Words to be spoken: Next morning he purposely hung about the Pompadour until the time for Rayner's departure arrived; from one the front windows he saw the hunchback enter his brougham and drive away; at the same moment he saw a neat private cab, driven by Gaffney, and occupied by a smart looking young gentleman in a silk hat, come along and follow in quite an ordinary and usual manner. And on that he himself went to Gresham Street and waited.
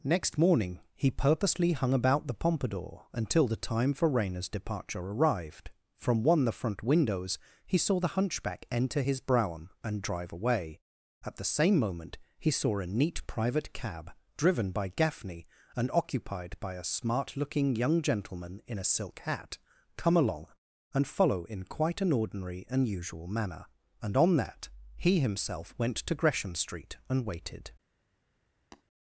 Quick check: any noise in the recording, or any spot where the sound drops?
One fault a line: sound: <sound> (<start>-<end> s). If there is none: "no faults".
sound: tap (28.7-28.8 s)